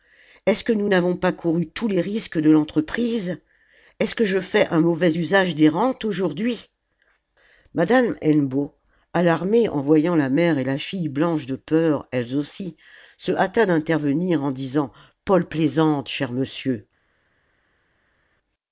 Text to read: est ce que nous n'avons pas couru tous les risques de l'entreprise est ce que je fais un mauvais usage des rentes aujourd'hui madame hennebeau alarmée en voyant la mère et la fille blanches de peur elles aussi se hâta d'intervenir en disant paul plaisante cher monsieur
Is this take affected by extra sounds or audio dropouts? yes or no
no